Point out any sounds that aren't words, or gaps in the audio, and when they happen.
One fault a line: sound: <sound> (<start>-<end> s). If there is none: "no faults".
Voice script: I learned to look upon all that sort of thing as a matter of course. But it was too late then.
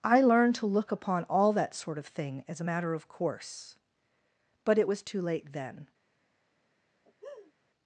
sound: laugh (7.0-7.5 s)